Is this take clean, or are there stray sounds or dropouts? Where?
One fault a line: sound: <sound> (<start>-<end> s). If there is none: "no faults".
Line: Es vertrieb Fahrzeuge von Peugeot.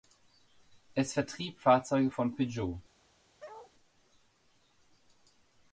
sound: bark (3.4-3.7 s)